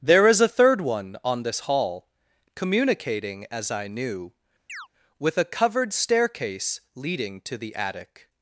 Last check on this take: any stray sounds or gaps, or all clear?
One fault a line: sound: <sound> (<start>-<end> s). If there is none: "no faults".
sound: chirp (4.7-4.9 s)